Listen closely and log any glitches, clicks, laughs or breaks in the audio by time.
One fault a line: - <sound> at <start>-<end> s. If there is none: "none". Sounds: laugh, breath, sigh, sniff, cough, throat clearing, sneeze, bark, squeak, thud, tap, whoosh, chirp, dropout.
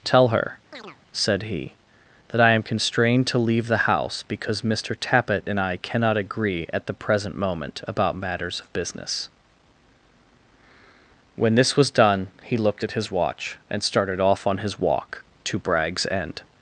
- chirp at 0.7-1.0 s